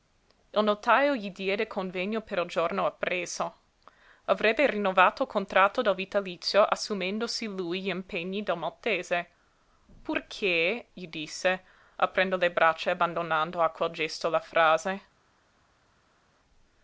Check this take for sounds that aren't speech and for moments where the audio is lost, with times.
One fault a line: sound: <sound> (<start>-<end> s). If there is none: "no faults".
no faults